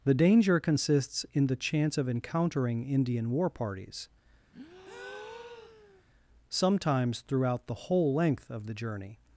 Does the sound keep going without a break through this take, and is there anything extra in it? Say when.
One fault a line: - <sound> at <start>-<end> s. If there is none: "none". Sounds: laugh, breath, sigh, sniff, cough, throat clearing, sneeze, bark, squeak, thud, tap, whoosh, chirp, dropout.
- breath at 4.5-6.0 s